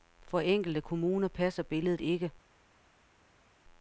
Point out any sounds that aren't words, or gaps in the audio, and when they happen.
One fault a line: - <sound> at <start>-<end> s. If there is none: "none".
none